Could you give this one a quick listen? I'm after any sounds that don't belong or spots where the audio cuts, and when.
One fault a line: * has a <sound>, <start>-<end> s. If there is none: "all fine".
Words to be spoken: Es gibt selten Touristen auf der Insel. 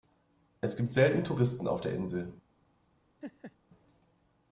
* has a laugh, 3.2-3.6 s